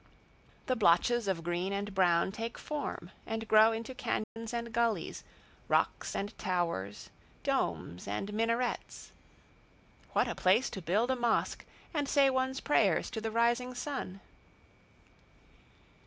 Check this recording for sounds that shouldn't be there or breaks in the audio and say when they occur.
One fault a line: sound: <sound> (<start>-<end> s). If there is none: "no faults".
sound: dropout (4.2-4.4 s)